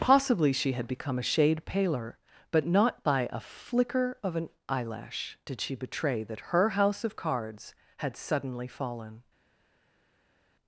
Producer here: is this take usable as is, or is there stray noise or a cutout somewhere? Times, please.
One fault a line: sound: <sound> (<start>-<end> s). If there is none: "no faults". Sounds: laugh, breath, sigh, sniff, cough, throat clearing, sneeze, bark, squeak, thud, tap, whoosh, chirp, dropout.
no faults